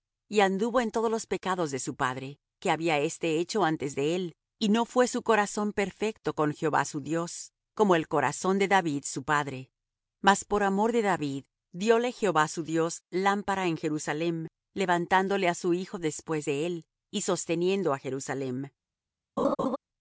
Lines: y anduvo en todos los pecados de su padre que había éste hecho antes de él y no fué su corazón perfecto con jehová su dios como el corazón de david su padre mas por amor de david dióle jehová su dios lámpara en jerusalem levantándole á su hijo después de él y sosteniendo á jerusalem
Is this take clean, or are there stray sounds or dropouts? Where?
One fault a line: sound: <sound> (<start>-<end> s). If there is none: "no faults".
sound: laugh (19.4-19.8 s)